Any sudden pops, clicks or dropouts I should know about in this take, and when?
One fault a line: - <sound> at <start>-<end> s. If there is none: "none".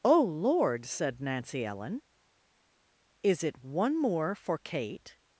none